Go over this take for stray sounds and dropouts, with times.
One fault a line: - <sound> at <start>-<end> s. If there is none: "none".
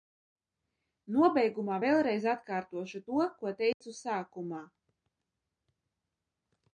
- dropout at 3.7-3.8 s